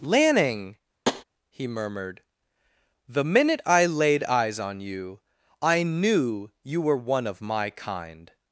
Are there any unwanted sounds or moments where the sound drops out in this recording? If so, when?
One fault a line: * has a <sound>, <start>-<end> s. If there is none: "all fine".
* has a tap, 1.1-1.2 s